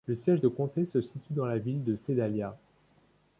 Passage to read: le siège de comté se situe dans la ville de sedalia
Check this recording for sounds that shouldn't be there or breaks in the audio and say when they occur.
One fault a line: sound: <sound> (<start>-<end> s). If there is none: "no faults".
no faults